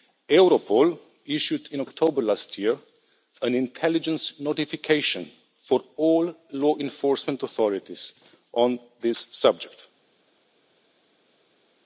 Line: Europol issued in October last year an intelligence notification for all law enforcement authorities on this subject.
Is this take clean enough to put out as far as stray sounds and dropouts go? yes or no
yes